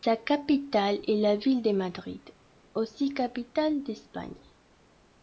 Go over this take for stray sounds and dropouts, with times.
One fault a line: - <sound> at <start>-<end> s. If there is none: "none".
none